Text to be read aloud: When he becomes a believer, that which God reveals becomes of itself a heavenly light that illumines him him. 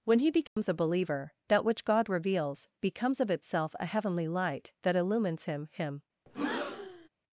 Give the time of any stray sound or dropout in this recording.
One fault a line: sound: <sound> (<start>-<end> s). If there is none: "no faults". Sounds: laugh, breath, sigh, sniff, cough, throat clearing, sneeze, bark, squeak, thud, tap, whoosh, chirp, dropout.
sound: dropout (0.5-0.6 s)
sound: breath (6.3-7.1 s)